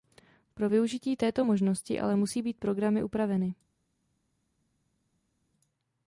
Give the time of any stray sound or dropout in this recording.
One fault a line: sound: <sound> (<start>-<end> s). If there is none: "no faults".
no faults